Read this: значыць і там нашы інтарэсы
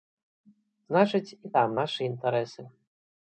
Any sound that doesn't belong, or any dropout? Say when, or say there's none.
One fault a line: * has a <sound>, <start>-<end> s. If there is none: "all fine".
all fine